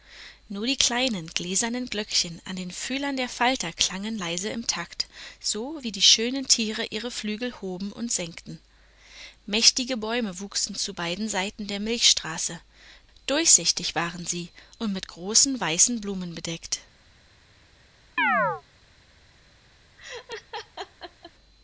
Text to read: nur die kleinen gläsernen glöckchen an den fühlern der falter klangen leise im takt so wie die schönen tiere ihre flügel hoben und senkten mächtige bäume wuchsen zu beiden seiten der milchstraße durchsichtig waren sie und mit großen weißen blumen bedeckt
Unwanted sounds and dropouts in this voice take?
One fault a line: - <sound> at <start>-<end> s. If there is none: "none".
- chirp at 18.2-18.6 s
- laugh at 20.0-21.3 s